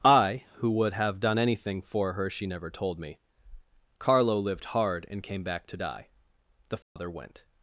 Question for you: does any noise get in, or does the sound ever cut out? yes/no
yes